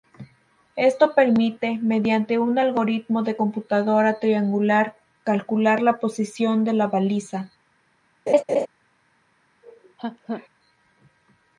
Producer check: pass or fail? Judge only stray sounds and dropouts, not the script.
fail